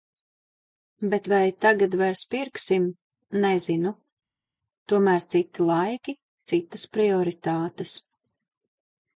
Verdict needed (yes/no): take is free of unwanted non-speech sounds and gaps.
yes